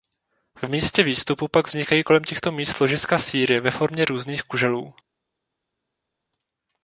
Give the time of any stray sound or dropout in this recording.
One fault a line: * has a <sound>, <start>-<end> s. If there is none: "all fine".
all fine